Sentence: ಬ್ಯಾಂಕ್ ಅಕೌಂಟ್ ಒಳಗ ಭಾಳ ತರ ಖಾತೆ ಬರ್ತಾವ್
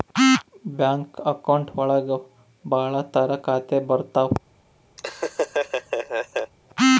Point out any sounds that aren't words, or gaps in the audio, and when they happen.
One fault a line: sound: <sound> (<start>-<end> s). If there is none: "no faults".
sound: laugh (5.0-6.5 s)